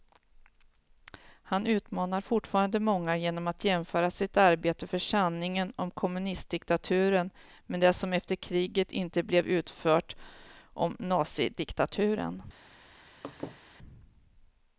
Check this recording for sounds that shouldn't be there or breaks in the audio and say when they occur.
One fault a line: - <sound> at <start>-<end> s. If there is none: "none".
- laugh at 13.2-13.6 s